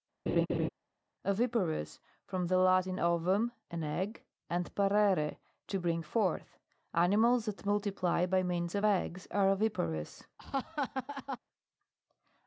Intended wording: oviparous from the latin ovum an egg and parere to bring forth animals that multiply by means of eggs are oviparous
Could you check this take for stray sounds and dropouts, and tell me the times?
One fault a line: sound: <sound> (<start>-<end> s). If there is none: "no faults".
sound: laugh (0.3-0.7 s)
sound: laugh (10.4-11.4 s)